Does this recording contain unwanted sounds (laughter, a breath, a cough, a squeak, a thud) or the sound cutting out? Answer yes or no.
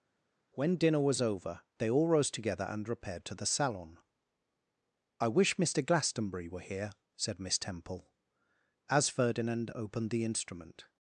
no